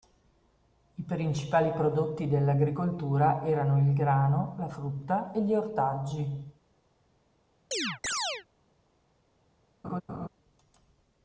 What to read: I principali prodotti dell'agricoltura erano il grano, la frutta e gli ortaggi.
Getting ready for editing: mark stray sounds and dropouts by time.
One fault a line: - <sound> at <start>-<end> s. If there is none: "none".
- chirp at 7.7-8.5 s
- laugh at 9.8-10.3 s